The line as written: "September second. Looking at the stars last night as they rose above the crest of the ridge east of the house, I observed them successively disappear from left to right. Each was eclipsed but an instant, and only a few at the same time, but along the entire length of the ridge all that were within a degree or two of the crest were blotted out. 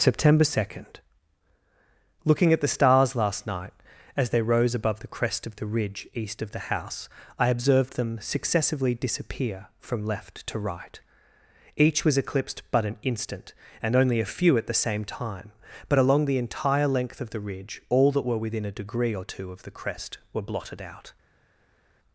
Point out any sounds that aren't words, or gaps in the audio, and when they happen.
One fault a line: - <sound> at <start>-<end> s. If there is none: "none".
none